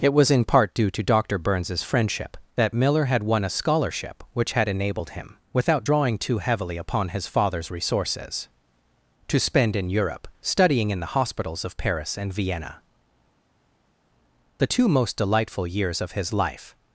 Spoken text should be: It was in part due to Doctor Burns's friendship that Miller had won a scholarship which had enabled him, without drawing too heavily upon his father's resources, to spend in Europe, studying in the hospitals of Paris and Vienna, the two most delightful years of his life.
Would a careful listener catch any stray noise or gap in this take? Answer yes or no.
no